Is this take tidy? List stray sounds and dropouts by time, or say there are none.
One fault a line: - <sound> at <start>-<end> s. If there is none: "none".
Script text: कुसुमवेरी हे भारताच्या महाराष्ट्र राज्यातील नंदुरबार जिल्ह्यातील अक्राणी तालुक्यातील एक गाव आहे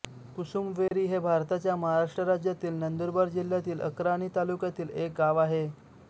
- dropout at 0.9-0.9 s